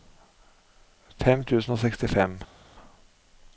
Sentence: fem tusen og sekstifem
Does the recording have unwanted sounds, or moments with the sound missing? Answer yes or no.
no